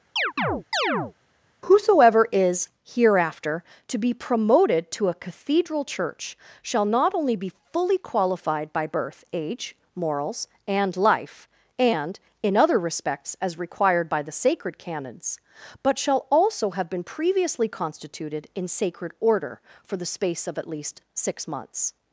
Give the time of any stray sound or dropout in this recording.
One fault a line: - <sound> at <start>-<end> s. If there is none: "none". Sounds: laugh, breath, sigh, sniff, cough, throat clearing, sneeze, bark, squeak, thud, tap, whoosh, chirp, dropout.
- chirp at 0.2-1.1 s